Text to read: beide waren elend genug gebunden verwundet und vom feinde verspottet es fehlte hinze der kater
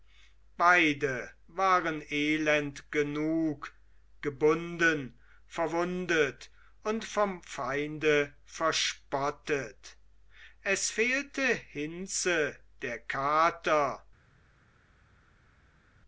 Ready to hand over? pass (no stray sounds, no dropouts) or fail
pass